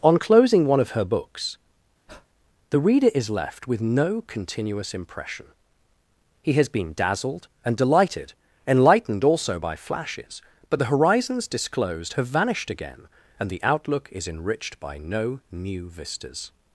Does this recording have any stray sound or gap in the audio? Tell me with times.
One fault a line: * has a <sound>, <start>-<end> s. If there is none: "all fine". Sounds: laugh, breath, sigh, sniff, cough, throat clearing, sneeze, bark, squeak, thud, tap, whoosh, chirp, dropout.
* has a breath, 2.1-2.3 s